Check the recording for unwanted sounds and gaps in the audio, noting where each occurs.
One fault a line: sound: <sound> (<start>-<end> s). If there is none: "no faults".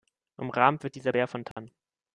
sound: dropout (1.5-1.6 s)